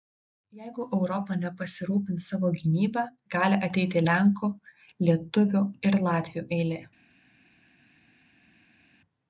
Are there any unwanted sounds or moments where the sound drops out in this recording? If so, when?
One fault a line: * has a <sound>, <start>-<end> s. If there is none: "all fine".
all fine